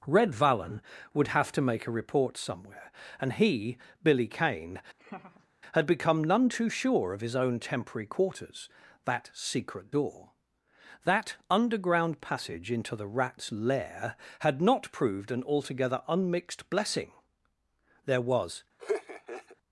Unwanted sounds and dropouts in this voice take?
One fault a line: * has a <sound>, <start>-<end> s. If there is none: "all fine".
* has a laugh, 5.0-5.5 s
* has a laugh, 18.8-19.6 s